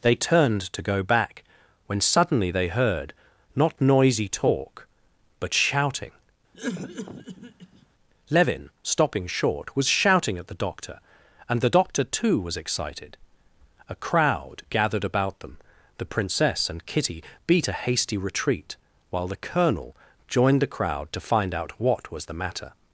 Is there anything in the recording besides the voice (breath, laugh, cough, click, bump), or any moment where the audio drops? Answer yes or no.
yes